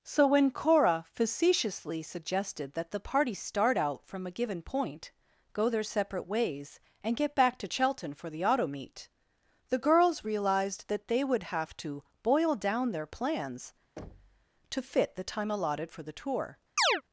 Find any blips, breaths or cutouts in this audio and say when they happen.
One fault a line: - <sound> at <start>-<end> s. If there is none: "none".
- thud at 14.0-14.5 s
- chirp at 16.8-17.0 s